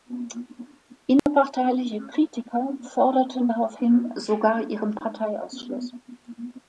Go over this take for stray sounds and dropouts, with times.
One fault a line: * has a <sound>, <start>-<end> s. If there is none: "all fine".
* has a dropout, 1.2-1.3 s